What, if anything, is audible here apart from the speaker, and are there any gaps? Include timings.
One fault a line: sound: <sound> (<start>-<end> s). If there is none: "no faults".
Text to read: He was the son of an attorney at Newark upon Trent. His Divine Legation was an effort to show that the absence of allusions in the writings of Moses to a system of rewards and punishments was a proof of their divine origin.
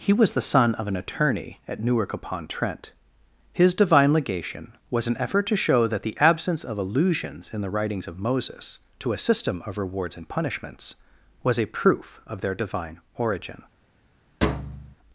sound: thud (14.4-15.0 s)